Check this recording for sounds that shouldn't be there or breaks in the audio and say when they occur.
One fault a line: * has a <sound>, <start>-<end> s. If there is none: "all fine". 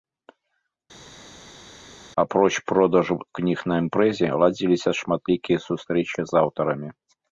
all fine